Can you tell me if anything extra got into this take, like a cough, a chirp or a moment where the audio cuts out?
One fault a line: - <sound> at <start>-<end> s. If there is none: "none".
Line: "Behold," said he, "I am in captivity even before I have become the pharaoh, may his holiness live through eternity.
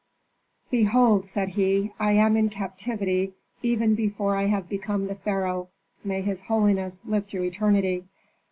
none